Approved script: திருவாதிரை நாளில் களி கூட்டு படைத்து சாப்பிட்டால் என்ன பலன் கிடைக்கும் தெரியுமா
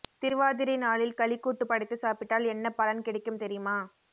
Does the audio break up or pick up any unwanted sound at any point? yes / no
no